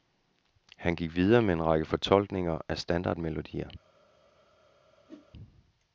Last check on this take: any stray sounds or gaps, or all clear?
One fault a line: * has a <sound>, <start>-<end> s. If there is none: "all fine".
* has a whoosh, 5.1-5.3 s